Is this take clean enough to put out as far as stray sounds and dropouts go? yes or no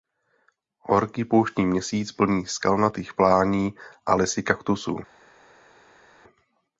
yes